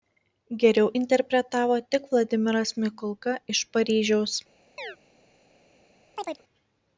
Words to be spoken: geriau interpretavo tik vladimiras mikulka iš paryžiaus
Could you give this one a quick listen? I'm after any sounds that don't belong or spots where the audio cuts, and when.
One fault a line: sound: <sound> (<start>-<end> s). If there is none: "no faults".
sound: chirp (4.8-5.0 s)
sound: chirp (6.2-6.4 s)